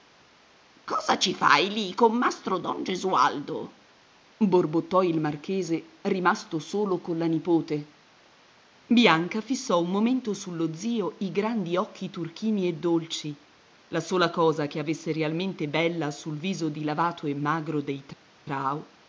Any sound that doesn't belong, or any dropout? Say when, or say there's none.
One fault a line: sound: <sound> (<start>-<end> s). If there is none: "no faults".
no faults